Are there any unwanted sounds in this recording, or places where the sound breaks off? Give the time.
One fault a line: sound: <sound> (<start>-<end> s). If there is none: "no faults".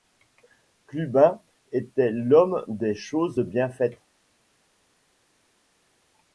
no faults